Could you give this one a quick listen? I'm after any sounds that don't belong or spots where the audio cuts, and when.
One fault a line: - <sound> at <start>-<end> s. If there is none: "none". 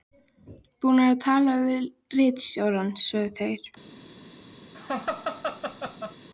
- laugh at 4.7-6.2 s